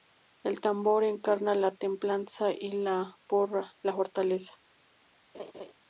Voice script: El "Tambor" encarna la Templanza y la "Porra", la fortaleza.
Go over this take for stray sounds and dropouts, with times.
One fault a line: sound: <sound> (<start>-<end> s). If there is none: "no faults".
sound: laugh (5.3-5.7 s)